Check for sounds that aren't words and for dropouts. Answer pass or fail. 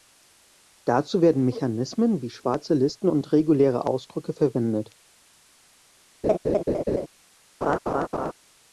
fail